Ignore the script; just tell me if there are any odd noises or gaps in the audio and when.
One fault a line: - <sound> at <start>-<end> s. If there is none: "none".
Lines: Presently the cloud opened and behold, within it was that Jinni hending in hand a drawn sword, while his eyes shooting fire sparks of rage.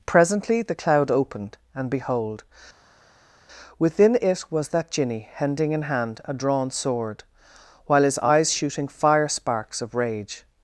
none